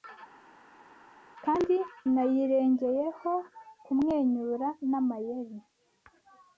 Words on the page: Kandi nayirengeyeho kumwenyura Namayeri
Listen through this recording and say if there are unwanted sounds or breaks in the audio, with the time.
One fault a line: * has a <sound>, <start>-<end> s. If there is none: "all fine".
all fine